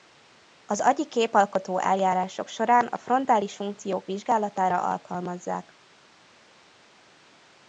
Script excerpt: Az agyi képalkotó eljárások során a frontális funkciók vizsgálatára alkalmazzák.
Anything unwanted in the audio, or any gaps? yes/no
no